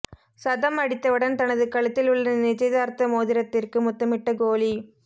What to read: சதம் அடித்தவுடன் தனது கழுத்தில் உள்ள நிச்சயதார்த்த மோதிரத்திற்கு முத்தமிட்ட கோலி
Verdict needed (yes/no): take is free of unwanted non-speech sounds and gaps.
yes